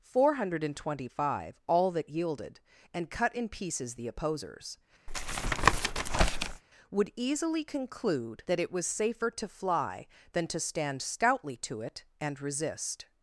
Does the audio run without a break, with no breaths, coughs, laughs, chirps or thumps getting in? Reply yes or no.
no